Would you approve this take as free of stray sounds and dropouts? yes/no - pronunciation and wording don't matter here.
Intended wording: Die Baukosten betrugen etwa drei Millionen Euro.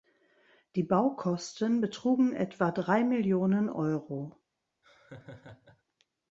no